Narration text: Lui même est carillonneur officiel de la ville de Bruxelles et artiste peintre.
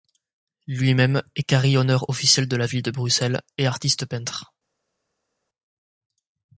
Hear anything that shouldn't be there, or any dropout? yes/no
no